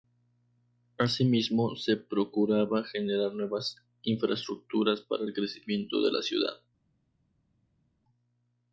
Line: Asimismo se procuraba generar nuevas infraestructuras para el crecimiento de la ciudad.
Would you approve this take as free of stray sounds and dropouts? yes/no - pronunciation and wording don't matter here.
yes